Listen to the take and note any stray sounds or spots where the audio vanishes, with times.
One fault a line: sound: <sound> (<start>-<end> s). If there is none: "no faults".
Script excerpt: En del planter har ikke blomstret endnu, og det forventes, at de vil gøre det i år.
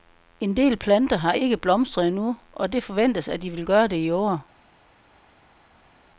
no faults